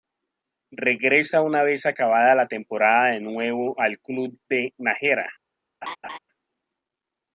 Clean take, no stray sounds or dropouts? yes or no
no